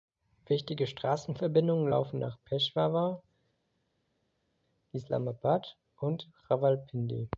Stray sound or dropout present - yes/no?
no